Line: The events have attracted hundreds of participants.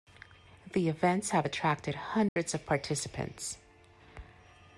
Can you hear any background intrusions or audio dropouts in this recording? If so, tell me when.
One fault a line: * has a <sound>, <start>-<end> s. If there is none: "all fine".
* has a dropout, 2.3-2.4 s